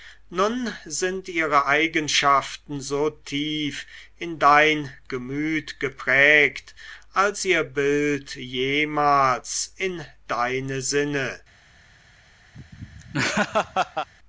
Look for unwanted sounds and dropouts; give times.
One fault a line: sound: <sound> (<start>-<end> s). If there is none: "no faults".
sound: laugh (12.5-14.1 s)